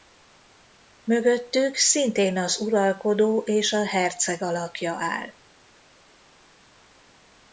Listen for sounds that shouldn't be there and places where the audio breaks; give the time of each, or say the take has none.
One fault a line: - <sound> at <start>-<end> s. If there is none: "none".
none